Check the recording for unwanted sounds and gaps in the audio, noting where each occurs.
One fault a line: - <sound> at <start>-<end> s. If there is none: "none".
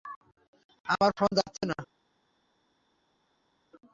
none